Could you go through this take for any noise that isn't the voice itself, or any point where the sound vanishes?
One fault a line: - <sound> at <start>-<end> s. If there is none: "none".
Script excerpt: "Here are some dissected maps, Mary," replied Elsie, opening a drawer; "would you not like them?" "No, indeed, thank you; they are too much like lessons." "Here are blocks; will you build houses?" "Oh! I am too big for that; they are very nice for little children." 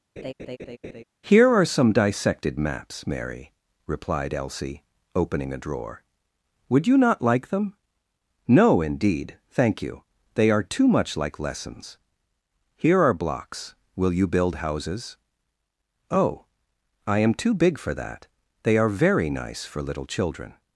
- laugh at 0.2-1.0 s